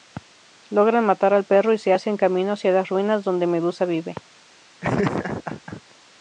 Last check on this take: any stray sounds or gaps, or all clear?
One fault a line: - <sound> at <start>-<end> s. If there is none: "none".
- laugh at 4.8-5.8 s